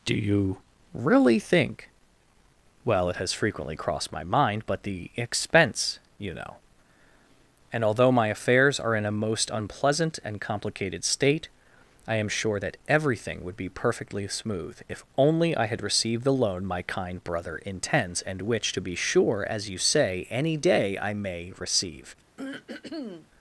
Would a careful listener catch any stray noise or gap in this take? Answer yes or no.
yes